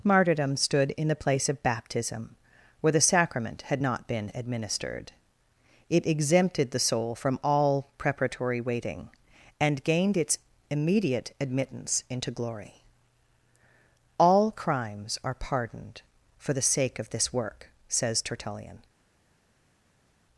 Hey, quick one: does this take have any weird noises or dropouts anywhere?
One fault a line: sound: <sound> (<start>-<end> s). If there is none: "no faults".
no faults